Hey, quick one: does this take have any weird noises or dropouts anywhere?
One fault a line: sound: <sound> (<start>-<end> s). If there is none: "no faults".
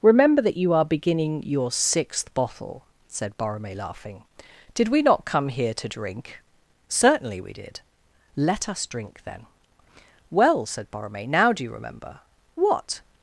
no faults